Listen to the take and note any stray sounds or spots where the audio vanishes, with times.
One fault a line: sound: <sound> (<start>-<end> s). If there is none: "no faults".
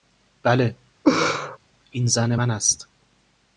sound: laugh (1.0-1.6 s)